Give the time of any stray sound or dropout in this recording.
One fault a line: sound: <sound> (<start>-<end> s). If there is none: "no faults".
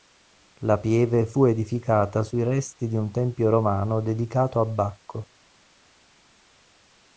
no faults